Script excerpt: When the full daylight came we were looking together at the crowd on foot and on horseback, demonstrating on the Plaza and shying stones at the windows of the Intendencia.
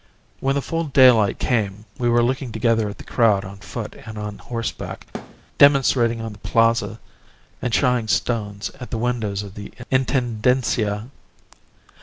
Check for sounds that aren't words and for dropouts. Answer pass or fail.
fail